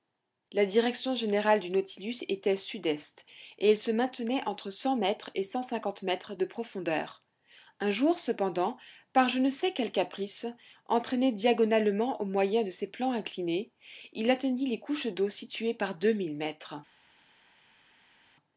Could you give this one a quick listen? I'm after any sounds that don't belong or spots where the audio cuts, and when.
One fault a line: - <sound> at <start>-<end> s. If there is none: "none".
none